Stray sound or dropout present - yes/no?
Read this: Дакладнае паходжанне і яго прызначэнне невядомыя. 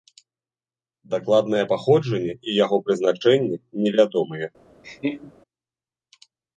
yes